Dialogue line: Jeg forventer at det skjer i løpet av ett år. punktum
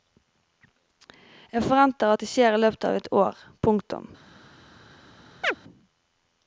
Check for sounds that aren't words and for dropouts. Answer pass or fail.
fail